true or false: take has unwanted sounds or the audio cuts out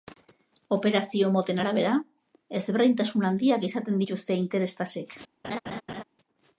true